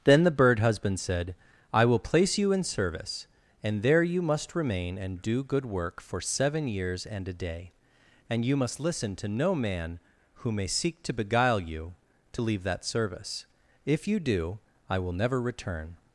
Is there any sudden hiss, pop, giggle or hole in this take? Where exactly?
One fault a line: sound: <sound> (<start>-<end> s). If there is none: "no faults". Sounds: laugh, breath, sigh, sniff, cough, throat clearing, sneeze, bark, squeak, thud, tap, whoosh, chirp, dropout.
no faults